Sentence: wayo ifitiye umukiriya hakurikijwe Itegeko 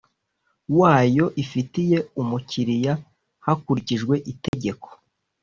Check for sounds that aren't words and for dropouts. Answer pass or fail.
fail